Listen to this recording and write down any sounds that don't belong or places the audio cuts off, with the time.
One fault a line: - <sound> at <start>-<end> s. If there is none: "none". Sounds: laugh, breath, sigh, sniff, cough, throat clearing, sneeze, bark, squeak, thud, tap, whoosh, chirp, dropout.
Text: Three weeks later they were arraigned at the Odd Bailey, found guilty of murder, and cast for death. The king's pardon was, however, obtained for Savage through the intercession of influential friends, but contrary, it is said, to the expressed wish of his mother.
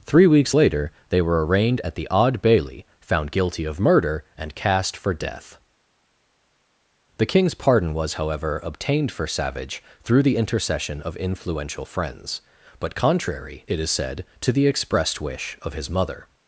none